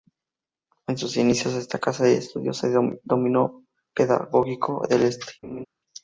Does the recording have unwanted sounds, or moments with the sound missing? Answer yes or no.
yes